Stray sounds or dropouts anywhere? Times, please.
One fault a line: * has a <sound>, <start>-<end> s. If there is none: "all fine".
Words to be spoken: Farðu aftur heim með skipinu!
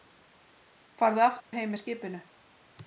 * has a dropout, 1.4-1.5 s